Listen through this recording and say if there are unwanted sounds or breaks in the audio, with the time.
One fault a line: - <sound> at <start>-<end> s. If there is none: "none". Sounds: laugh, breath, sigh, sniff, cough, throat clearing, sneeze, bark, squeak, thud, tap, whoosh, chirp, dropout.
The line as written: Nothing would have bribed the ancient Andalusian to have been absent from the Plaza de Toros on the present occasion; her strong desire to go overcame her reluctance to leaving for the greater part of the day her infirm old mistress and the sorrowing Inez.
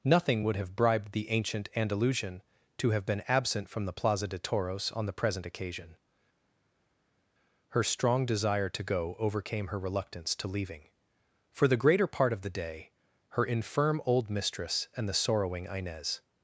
none